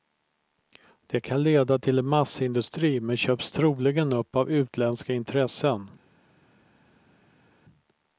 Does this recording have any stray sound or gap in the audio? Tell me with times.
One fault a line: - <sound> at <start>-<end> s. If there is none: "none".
none